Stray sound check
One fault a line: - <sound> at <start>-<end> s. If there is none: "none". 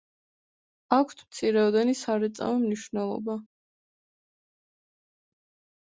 none